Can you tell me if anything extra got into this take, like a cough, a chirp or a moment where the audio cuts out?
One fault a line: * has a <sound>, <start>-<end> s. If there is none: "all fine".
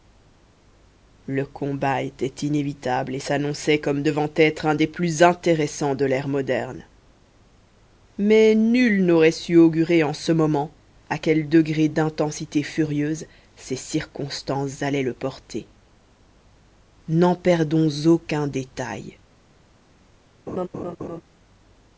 * has a laugh, 20.5-21.2 s